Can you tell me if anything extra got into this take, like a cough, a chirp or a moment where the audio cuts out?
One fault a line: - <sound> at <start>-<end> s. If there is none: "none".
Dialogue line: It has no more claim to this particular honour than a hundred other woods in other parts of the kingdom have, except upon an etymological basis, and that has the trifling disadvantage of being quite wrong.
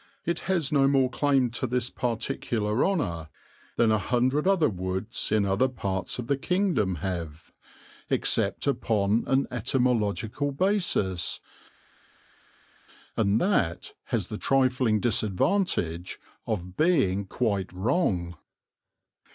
none